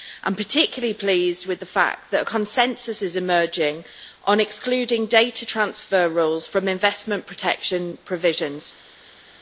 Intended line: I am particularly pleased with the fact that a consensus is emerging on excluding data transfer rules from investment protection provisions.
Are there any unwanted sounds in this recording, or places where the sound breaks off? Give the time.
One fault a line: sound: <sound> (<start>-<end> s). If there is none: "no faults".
no faults